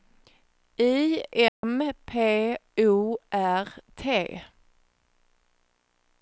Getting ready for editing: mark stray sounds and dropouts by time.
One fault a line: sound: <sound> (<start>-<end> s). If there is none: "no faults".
sound: dropout (1.5-1.6 s)